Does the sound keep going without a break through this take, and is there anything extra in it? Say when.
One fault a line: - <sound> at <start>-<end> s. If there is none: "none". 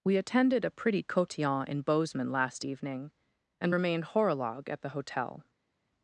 none